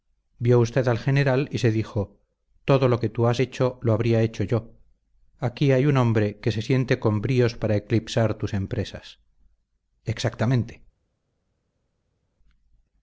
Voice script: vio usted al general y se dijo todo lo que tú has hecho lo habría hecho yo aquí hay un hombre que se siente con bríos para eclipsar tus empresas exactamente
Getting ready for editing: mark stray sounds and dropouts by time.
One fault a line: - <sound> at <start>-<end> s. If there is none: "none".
none